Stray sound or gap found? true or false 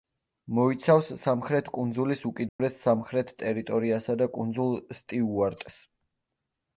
true